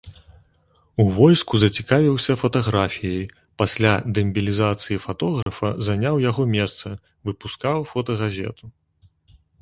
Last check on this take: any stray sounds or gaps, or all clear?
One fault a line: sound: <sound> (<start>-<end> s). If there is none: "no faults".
sound: dropout (5.4-5.5 s)